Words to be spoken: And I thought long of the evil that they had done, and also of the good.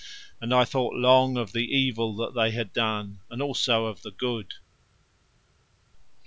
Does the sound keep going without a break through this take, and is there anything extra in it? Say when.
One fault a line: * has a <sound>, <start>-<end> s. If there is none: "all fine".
all fine